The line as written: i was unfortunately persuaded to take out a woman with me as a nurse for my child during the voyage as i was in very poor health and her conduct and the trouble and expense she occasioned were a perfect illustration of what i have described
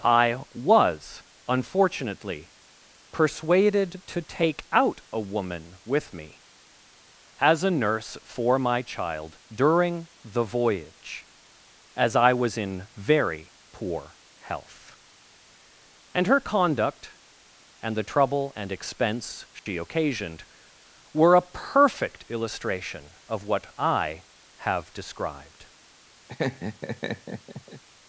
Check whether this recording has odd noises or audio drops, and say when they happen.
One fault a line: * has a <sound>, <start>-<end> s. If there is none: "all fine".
* has a dropout, 19.6-19.7 s
* has a laugh, 26.3-27.8 s